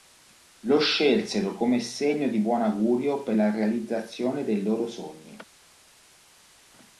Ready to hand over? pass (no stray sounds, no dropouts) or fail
pass